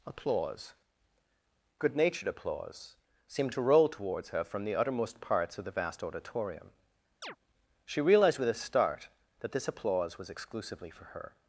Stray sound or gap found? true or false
true